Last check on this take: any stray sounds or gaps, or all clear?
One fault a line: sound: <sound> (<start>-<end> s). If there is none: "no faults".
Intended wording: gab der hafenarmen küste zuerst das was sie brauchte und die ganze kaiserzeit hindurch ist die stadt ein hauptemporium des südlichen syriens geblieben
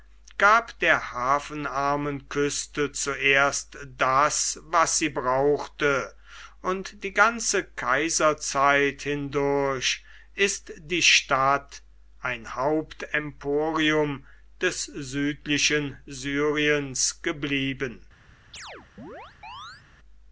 sound: chirp (18.5-19.8 s)